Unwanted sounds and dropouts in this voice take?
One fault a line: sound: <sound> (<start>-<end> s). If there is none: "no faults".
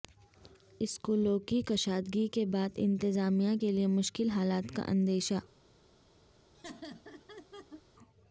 sound: laugh (6.5-7.8 s)